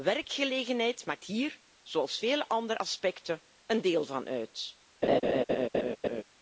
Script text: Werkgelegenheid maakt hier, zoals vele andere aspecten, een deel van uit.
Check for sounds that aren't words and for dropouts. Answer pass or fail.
fail